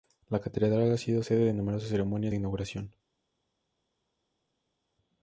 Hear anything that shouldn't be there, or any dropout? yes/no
no